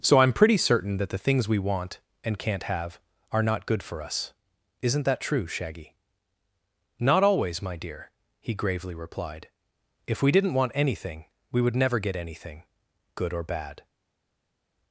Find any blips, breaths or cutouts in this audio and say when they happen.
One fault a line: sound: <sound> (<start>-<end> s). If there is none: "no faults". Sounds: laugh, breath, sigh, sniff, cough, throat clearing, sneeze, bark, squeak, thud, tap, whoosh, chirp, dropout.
no faults